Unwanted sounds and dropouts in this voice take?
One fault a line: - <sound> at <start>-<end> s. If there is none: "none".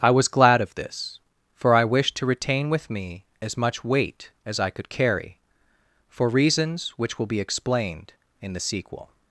none